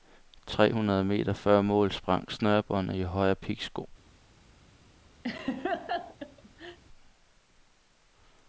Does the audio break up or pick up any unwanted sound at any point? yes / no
yes